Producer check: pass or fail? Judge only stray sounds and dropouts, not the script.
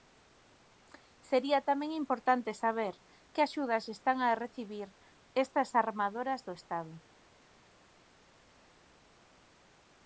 pass